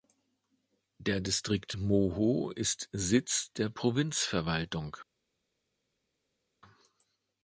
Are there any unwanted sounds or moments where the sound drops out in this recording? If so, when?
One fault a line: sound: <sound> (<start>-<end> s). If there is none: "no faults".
no faults